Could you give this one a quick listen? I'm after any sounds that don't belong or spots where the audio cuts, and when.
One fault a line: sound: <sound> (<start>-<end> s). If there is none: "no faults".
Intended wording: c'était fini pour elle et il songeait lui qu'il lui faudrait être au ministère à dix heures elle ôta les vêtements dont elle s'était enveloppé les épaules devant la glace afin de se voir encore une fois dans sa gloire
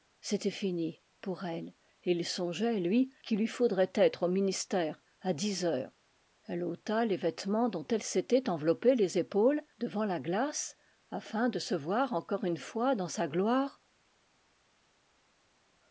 no faults